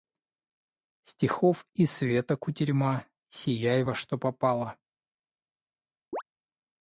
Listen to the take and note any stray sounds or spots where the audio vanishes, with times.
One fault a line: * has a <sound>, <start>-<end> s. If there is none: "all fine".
* has a chirp, 6.1-6.2 s